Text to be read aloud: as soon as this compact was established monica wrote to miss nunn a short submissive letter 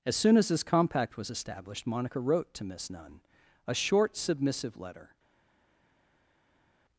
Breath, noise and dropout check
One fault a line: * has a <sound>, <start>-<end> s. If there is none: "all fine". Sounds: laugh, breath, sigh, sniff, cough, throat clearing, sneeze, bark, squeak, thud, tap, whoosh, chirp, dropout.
all fine